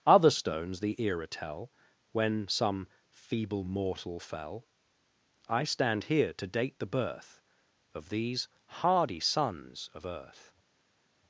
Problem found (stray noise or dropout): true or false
false